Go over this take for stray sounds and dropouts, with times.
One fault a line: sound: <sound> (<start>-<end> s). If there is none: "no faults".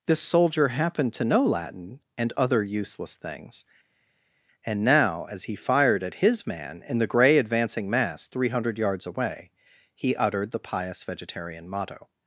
no faults